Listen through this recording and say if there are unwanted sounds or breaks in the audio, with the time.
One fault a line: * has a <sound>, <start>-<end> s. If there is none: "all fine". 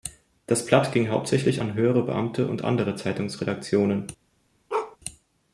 * has a bark, 4.7-5.0 s